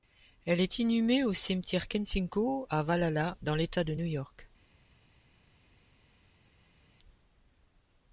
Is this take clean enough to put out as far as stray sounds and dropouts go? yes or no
yes